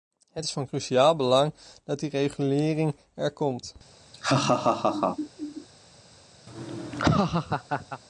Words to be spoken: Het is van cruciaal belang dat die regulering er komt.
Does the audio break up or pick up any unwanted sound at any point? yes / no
yes